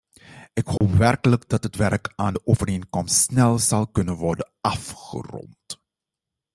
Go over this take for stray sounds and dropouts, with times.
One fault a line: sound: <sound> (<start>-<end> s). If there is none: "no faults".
sound: dropout (0.8-0.8 s)